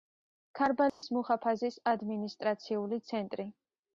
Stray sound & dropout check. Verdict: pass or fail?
fail